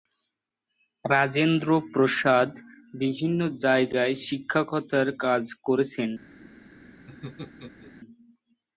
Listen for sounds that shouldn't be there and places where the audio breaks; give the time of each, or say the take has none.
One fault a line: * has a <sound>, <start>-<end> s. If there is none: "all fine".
* has a laugh, 7.1-7.9 s